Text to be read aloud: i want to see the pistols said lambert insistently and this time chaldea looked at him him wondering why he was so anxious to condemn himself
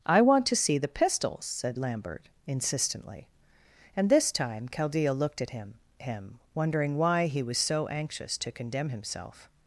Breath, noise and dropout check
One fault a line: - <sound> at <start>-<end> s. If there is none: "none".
none